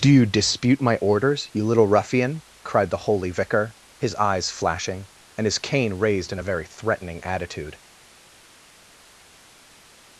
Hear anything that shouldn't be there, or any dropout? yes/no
no